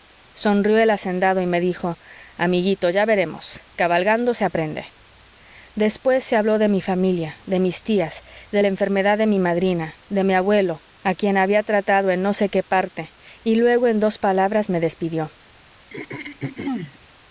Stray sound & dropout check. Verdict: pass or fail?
fail